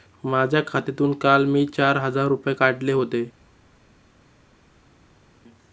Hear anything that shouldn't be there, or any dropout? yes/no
no